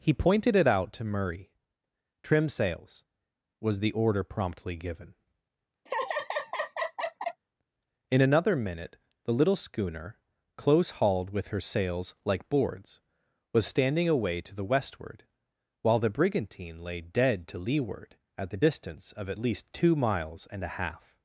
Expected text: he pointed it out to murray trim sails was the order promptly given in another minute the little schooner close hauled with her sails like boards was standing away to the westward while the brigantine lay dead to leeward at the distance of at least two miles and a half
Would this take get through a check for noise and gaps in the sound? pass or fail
fail